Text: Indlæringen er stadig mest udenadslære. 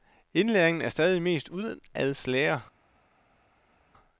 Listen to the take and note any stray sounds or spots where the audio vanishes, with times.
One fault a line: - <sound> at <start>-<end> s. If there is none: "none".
none